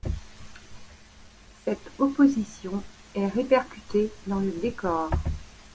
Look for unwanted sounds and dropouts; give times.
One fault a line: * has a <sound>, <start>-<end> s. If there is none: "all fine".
all fine